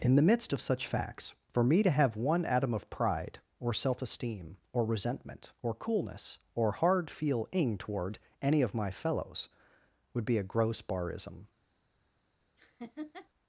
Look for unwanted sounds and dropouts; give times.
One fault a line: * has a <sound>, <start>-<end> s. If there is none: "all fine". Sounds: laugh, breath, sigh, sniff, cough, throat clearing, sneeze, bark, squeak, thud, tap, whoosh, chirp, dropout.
* has a laugh, 12.6-13.3 s